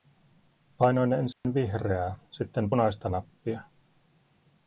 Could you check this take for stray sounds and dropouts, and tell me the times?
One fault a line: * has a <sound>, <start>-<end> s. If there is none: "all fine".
* has a dropout, 1.3-1.4 s